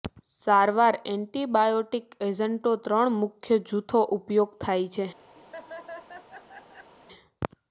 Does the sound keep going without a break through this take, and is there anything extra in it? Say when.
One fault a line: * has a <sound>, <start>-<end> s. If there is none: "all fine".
* has a laugh, 5.4-6.9 s